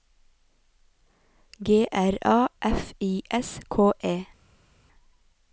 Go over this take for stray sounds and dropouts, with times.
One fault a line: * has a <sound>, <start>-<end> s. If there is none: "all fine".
all fine